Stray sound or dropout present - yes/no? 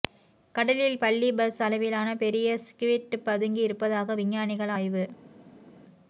no